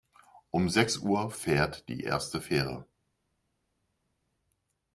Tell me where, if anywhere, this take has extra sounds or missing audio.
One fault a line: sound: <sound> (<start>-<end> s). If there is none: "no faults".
no faults